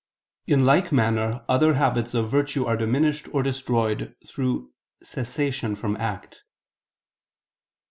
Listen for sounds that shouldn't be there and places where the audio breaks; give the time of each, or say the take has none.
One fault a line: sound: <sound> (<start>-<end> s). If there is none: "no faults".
no faults